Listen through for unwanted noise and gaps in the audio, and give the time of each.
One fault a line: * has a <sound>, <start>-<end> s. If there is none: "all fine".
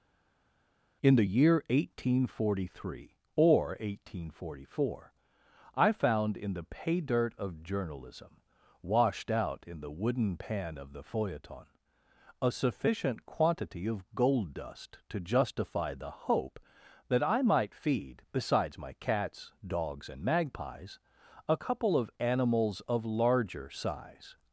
all fine